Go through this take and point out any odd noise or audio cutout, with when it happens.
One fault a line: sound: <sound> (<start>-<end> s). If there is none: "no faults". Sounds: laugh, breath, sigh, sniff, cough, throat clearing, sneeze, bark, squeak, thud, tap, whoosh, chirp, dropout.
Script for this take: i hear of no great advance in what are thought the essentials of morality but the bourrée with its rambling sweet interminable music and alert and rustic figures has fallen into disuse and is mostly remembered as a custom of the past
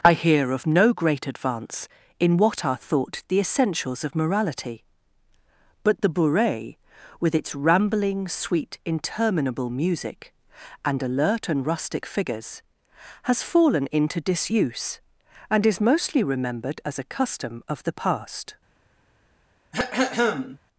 sound: throat clearing (19.7-20.6 s)